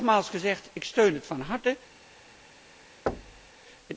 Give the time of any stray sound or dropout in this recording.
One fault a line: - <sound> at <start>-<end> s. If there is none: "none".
- thud at 3.1-3.5 s